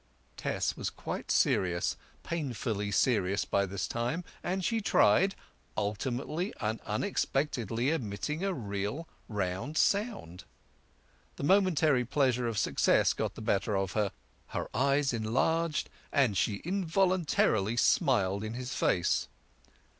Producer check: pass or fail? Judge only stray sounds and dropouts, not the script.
pass